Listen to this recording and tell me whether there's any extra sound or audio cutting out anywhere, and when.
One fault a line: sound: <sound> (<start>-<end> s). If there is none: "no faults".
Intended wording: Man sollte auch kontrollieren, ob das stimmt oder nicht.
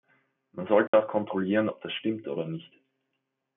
sound: dropout (0.9-0.9 s)